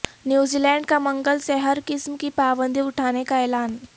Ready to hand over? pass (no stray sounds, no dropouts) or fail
pass